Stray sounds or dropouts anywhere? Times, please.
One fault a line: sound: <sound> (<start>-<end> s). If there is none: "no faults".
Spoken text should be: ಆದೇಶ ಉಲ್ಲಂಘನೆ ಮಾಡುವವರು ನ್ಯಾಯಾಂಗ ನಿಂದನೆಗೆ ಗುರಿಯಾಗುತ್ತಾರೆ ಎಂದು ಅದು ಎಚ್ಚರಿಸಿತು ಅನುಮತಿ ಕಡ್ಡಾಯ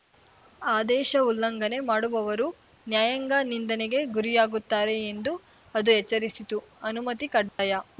sound: dropout (7.5-7.6 s)